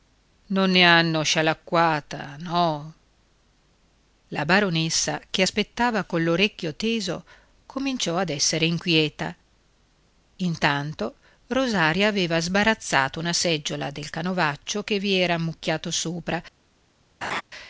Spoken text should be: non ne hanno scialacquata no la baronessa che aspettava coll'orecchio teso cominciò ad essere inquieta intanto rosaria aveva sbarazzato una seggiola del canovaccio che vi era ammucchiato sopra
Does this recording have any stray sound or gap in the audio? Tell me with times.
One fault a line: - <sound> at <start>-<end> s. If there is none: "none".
- laugh at 17.2-17.4 s